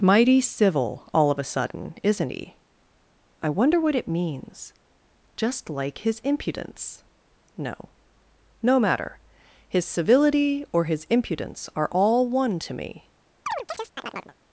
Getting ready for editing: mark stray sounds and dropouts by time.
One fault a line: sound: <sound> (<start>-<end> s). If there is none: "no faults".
sound: chirp (13.5-14.3 s)